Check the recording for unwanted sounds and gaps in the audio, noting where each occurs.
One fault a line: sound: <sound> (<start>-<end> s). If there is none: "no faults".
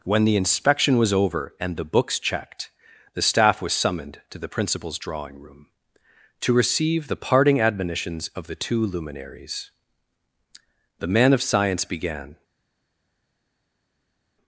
no faults